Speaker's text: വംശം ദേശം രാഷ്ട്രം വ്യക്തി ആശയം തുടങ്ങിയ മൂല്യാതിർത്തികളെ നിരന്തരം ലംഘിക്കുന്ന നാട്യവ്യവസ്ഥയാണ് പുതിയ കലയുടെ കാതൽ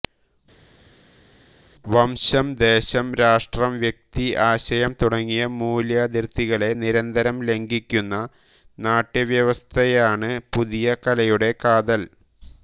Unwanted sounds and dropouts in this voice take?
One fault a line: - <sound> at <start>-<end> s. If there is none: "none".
none